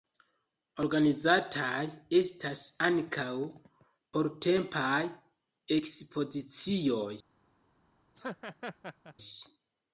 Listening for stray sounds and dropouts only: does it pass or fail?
fail